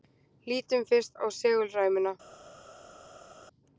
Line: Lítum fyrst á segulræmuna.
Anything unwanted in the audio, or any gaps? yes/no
no